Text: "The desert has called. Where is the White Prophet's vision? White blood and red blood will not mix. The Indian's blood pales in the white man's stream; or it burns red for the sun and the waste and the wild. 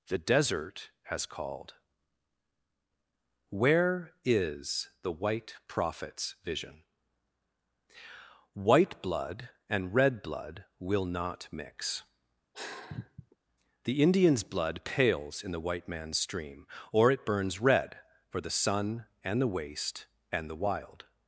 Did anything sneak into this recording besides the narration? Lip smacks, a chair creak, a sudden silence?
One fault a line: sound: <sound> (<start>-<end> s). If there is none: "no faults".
sound: sigh (12.5-13.4 s)